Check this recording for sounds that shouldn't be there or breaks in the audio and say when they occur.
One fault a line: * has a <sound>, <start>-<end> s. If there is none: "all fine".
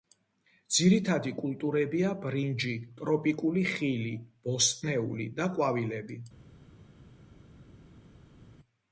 all fine